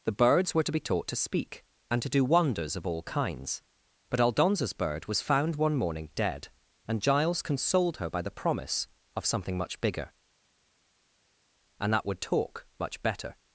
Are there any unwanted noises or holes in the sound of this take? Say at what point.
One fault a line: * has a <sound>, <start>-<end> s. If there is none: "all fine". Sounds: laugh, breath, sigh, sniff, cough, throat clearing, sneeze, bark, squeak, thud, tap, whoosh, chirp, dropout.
all fine